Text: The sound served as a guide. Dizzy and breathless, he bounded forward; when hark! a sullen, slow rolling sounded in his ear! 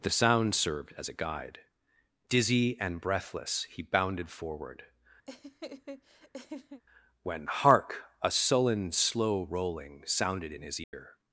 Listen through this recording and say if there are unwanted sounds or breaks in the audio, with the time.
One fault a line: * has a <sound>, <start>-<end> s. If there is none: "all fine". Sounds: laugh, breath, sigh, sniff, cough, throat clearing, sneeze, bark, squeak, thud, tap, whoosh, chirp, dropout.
* has a laugh, 5.3-6.8 s
* has a dropout, 10.8-10.9 s